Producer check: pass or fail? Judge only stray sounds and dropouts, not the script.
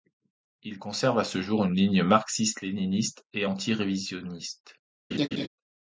fail